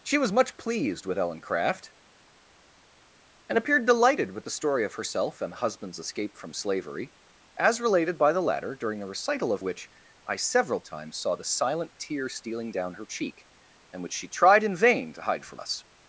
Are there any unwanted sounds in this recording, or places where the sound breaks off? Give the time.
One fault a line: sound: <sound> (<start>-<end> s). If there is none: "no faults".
no faults